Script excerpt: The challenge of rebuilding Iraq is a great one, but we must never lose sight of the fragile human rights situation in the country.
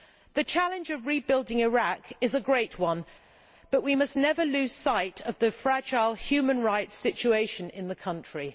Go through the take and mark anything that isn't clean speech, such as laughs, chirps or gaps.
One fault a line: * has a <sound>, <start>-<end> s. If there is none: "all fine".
all fine